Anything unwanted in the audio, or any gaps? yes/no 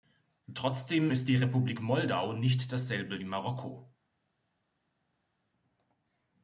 no